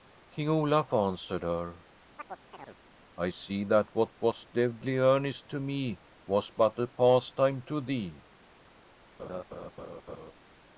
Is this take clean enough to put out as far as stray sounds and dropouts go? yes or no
no